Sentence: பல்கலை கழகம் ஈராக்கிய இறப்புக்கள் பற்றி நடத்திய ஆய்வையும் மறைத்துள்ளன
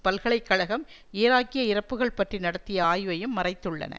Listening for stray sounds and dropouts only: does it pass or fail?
pass